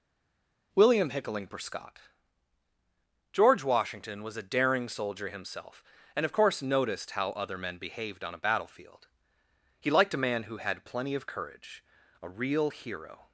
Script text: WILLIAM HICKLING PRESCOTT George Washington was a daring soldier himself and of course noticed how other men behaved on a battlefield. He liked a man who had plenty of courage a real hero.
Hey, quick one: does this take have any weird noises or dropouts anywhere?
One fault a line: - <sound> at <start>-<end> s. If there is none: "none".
none